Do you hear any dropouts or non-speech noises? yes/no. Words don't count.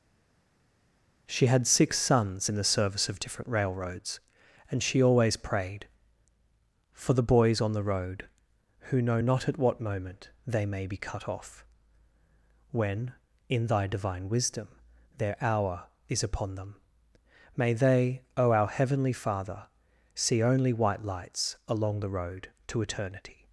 no